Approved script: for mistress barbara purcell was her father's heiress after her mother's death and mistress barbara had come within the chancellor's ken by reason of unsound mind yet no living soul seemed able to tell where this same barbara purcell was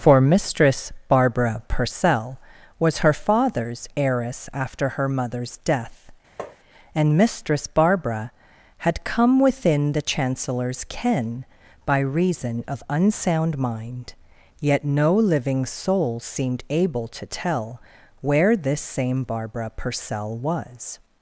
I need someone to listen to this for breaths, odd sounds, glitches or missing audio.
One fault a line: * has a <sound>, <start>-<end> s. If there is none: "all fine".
* has a tap, 6.4-6.6 s